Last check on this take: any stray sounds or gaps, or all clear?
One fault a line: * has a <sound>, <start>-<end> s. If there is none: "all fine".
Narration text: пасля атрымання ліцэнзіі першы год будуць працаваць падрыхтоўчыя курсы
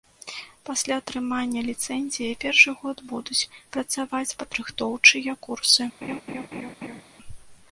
* has a laugh, 6.0-7.0 s